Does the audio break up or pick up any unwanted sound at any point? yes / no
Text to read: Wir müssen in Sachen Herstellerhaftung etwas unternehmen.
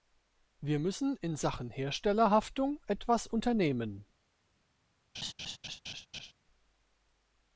yes